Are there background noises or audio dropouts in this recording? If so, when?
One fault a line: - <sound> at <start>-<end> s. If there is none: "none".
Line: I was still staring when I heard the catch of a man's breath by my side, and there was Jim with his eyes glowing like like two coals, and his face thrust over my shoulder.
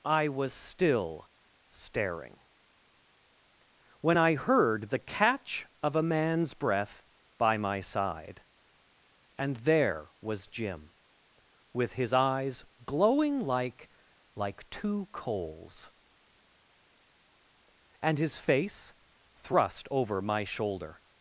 none